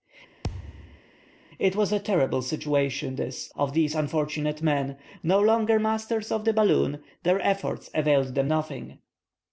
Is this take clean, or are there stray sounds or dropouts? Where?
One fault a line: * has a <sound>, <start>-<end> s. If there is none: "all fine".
* has a thud, 0.4-1.0 s